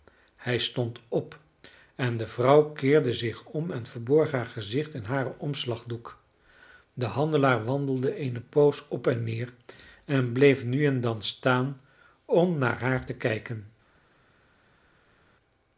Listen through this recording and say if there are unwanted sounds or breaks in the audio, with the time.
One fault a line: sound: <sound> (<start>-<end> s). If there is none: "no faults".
no faults